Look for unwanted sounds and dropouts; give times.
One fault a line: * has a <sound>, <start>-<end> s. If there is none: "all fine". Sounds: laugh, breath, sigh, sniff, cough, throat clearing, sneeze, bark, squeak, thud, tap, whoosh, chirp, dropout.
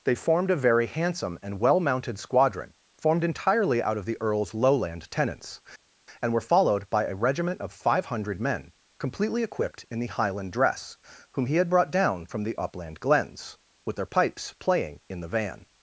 all fine